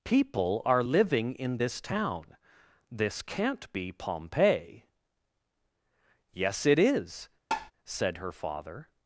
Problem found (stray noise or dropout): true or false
true